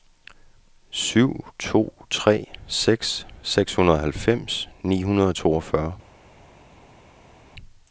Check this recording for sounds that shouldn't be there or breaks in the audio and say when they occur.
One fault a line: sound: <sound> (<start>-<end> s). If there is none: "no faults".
no faults